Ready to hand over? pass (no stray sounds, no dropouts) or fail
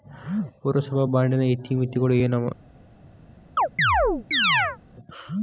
fail